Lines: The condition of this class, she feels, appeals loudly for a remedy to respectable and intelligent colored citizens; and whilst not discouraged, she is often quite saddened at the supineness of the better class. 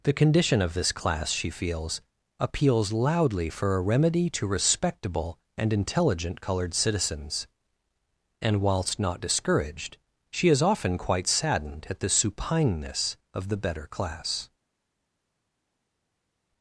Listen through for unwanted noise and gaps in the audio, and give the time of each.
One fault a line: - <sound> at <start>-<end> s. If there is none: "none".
none